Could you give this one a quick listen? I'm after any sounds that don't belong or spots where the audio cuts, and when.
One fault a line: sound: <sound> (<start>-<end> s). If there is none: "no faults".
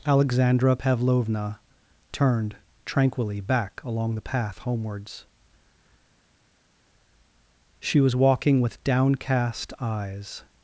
no faults